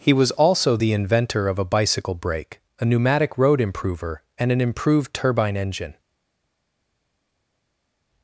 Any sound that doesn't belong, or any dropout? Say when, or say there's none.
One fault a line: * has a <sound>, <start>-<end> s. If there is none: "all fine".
all fine